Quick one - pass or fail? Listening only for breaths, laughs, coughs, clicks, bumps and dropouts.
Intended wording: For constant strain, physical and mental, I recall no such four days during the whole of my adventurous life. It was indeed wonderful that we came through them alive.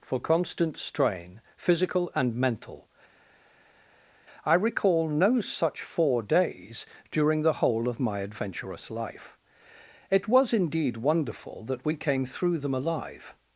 pass